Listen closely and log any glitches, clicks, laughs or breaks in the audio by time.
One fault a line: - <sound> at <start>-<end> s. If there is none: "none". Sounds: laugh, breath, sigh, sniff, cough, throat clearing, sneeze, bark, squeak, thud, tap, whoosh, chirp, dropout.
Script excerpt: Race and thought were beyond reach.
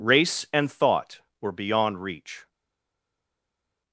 none